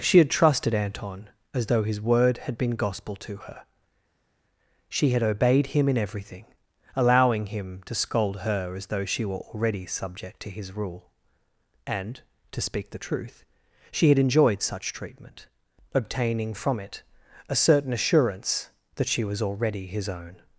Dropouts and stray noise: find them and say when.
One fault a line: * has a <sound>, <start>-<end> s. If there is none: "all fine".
all fine